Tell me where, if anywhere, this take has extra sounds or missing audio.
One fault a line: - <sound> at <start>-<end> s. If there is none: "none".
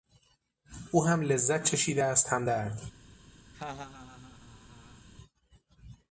- laugh at 3.5-5.1 s